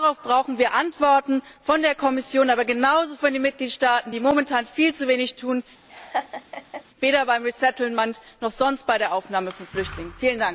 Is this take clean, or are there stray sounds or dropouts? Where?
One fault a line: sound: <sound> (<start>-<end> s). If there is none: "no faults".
sound: laugh (5.9-6.8 s)